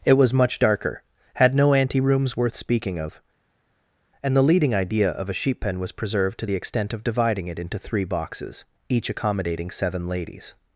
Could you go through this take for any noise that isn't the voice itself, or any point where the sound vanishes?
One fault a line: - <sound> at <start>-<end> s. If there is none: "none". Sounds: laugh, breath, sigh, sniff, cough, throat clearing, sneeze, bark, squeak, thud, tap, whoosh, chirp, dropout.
none